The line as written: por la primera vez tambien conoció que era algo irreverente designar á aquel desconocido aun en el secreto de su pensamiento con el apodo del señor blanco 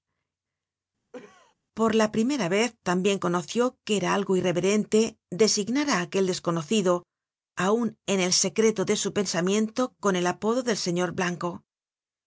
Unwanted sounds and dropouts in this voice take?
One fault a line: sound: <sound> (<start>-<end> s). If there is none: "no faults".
sound: cough (1.1-1.5 s)